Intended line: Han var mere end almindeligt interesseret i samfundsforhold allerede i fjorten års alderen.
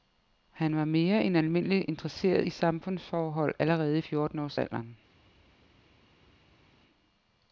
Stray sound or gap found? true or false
false